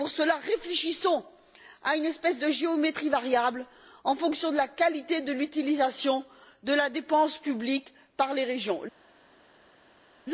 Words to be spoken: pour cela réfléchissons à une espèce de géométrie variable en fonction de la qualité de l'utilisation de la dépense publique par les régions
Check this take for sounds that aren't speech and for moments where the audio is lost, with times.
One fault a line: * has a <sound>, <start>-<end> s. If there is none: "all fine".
all fine